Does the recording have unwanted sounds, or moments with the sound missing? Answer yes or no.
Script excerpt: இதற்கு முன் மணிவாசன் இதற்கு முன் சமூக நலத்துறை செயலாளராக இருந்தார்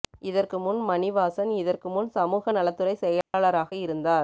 yes